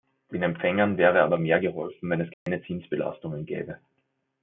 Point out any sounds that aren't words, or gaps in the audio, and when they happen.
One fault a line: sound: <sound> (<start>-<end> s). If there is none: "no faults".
sound: dropout (2.3-2.5 s)